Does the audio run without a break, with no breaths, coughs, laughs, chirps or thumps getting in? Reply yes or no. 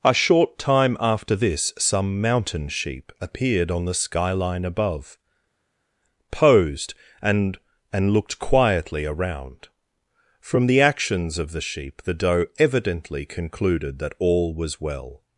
yes